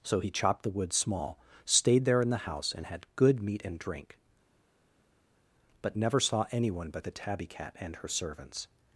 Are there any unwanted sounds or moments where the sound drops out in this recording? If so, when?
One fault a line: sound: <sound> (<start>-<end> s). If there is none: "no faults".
no faults